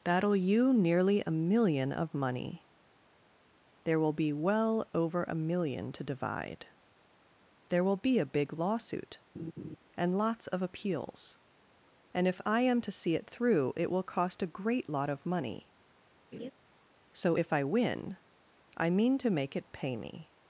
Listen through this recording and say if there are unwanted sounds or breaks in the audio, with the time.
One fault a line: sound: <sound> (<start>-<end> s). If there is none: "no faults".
sound: laugh (9.3-9.8 s)
sound: laugh (16.3-16.5 s)